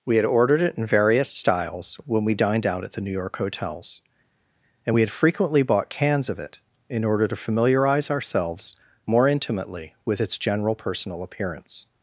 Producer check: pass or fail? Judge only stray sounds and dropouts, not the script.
pass